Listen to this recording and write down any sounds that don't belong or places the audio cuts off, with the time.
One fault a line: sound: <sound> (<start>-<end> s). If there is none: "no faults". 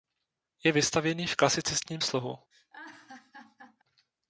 sound: laugh (2.5-3.8 s)